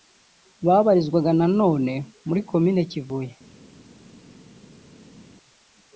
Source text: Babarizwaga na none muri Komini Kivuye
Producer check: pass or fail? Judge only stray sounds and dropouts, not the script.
pass